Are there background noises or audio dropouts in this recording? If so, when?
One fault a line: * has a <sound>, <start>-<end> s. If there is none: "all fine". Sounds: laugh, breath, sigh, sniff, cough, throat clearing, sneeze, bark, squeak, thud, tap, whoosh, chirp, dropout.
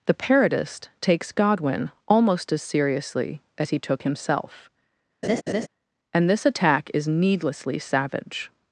* has a laugh, 5.2-5.7 s